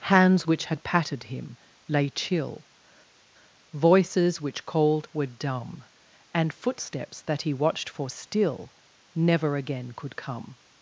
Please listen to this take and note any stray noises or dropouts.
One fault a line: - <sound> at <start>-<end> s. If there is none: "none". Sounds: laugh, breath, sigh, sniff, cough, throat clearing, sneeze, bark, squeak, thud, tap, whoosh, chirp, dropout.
none